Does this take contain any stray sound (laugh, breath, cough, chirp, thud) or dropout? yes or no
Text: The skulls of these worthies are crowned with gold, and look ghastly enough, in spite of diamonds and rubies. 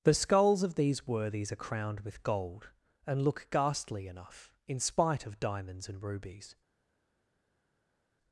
no